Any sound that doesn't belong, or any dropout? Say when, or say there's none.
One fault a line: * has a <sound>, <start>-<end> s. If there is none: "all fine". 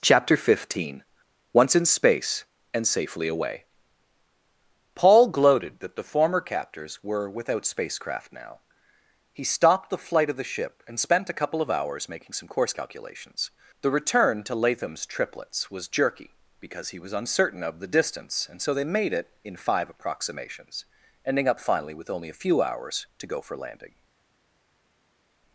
all fine